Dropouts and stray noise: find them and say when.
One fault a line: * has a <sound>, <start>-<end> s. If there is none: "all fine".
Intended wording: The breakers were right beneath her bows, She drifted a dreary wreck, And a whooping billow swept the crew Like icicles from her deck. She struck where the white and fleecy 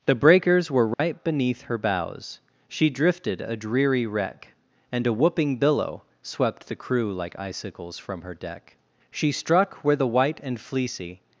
* has a dropout, 0.9-1.0 s